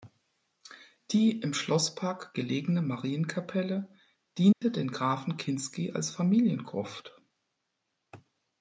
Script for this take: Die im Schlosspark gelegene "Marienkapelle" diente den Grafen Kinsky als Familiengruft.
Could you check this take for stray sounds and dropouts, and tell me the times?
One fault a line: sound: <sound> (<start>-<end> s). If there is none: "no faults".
sound: dropout (4.5-4.6 s)